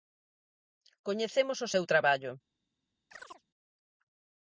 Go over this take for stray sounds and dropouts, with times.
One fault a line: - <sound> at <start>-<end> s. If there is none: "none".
- chirp at 3.1-3.4 s